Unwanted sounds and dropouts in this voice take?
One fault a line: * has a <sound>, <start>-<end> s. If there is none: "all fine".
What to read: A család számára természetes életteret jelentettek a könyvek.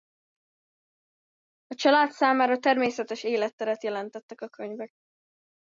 all fine